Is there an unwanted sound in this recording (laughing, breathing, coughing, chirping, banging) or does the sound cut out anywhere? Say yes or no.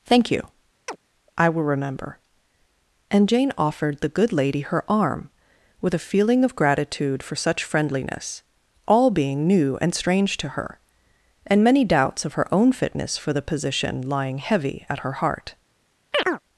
yes